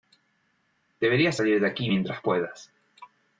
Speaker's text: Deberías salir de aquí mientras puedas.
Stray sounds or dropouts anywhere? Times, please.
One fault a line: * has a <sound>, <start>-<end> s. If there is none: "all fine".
all fine